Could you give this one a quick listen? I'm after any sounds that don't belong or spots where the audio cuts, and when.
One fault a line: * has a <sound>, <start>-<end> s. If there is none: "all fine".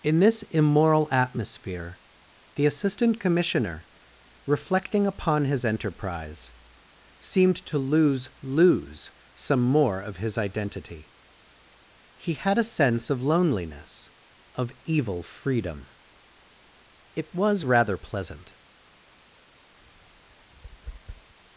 * has a tap, 19.8-21.3 s